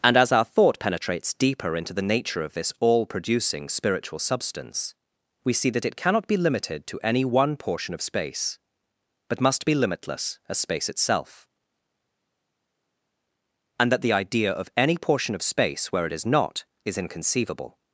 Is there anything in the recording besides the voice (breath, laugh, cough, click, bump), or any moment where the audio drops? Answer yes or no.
no